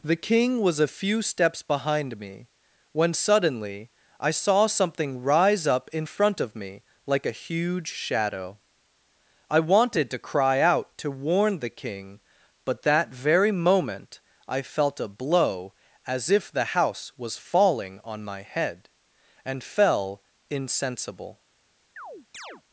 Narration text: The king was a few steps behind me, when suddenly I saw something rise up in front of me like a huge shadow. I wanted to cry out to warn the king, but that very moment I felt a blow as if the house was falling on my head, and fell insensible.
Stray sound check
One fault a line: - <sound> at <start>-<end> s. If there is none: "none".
- chirp at 22.0-22.6 s